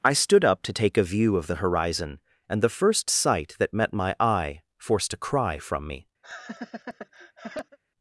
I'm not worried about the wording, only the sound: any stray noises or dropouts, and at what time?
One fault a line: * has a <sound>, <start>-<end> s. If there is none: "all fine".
* has a laugh, 6.2-7.8 s